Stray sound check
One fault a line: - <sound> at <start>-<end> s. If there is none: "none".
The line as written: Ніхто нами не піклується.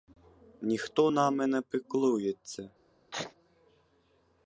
- sneeze at 3.1-3.3 s